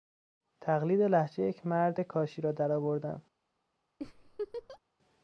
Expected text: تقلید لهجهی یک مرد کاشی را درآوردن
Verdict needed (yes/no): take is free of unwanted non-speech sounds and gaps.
no